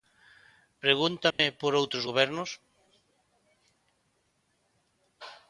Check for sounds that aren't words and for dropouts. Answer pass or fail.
fail